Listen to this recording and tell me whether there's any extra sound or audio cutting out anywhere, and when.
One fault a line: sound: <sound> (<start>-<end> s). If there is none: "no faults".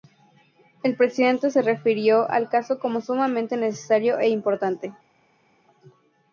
no faults